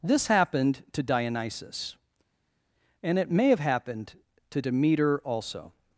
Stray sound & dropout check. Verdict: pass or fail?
pass